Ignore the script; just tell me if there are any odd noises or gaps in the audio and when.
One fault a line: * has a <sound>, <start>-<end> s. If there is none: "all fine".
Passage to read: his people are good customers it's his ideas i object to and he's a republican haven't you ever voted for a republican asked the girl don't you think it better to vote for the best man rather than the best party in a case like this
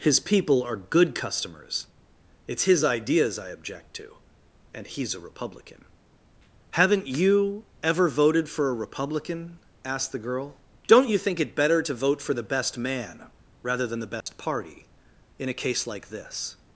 * has a dropout, 14.2-14.3 s